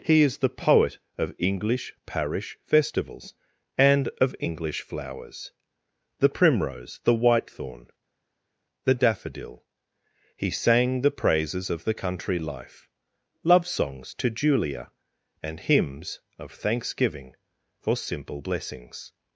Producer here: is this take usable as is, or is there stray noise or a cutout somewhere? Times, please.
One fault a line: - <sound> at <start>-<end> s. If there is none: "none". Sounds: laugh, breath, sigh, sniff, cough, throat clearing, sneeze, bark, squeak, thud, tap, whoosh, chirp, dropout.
none